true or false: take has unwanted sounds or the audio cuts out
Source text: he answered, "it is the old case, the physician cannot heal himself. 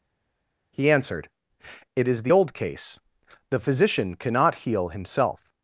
false